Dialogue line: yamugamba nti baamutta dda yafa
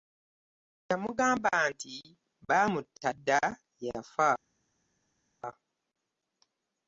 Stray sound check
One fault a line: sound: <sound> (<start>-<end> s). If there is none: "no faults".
no faults